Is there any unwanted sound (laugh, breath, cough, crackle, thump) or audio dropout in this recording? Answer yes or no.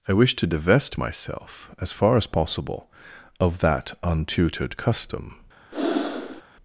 yes